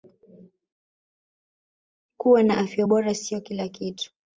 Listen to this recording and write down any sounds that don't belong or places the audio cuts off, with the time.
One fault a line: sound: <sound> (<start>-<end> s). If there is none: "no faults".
no faults